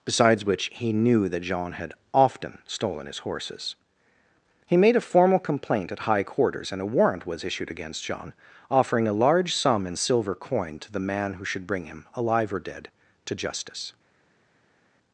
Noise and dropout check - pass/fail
pass